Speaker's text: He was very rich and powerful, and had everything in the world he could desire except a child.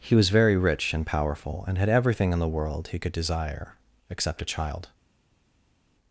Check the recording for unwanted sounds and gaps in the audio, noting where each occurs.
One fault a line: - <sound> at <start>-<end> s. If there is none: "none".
none